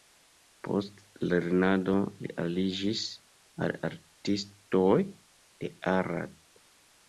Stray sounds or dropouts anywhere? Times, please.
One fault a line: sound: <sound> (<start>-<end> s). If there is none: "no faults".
no faults